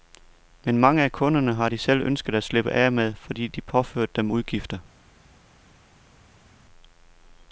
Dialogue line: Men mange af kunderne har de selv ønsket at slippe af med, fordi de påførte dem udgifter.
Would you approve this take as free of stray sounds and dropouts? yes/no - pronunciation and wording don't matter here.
yes